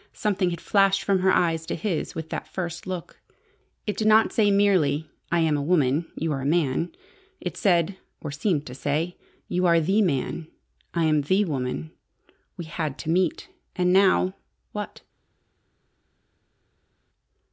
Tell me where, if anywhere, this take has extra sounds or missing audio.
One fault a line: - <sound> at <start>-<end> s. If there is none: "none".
none